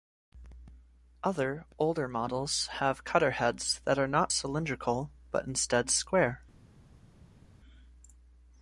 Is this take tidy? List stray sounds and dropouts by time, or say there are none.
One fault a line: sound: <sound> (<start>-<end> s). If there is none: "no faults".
no faults